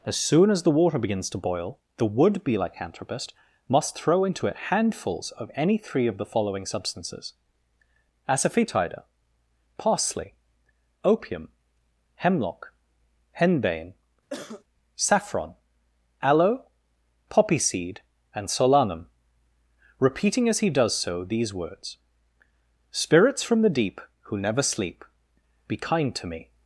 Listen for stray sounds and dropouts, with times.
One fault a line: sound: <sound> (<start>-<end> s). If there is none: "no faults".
sound: cough (14.3-14.6 s)